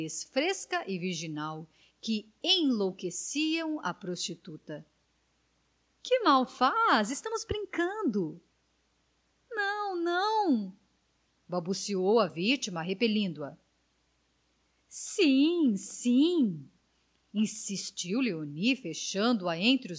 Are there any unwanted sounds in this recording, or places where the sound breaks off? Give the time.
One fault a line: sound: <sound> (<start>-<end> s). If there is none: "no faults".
no faults